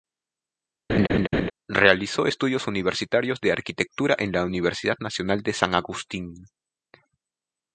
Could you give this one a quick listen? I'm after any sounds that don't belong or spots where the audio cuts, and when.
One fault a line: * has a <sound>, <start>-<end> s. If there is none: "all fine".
* has a laugh, 0.9-1.5 s